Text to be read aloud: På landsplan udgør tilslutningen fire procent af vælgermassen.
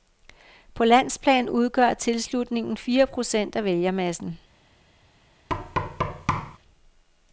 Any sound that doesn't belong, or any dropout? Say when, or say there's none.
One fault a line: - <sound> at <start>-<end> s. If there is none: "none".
- thud at 5.5-6.6 s